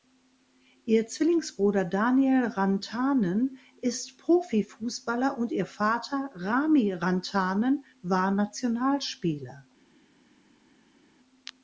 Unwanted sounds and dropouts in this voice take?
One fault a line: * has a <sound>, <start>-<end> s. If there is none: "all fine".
all fine